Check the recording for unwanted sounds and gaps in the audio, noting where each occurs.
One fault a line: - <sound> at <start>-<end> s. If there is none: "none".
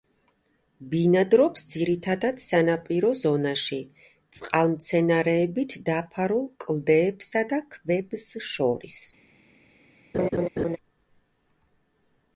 - laugh at 10.1-10.8 s